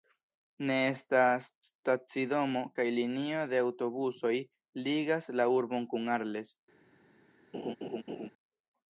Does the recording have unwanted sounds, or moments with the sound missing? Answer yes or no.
yes